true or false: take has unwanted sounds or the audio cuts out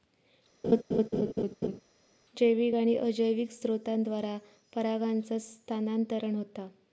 true